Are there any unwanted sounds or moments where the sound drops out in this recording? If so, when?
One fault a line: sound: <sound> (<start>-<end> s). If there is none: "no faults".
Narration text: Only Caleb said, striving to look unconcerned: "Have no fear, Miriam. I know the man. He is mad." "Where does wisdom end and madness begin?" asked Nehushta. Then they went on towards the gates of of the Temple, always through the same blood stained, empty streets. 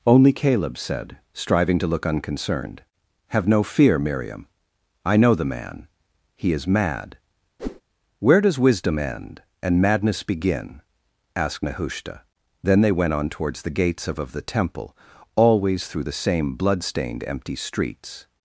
sound: whoosh (7.6-7.8 s)